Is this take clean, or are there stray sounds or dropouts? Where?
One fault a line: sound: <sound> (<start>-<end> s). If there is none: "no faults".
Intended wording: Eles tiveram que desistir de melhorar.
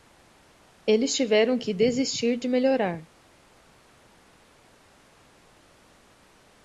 no faults